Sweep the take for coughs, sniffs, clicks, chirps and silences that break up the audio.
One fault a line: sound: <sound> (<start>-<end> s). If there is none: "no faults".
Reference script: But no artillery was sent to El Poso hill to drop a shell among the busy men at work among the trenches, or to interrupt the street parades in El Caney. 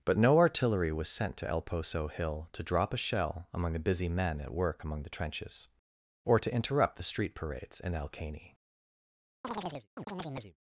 sound: chirp (9.4-10.6 s)